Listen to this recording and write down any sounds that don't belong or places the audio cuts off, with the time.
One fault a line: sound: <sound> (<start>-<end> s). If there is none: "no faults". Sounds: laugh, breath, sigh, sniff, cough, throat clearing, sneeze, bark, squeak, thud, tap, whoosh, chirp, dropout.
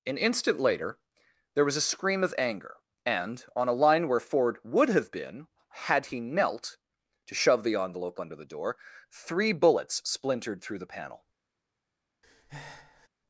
sound: breath (12.2-13.1 s)